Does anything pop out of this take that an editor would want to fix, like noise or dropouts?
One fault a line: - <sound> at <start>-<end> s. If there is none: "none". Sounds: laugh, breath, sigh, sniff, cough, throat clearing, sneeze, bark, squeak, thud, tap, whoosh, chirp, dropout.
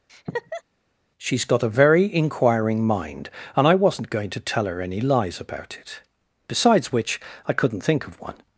- laugh at 0.1-0.6 s